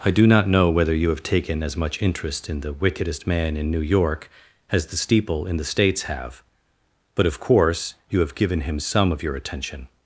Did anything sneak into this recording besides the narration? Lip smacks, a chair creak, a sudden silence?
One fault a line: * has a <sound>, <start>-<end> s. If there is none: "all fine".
all fine